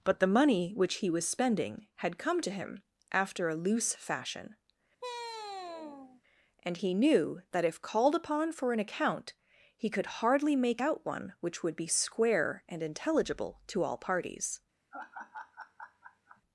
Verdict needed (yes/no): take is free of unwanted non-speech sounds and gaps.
no